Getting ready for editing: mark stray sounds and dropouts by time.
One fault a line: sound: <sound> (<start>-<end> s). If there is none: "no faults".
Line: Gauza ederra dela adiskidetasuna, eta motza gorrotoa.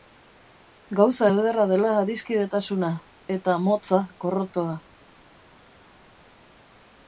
no faults